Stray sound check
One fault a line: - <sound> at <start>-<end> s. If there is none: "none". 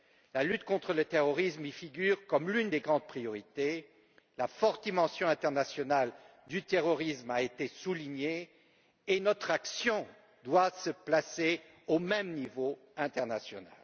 none